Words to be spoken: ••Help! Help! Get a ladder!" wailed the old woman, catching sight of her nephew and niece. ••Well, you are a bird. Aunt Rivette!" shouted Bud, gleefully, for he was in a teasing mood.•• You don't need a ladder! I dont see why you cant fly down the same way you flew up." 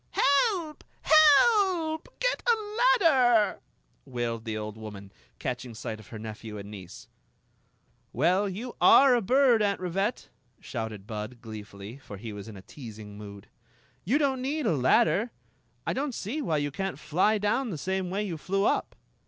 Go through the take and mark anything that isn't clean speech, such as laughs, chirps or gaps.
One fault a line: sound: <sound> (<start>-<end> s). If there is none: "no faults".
no faults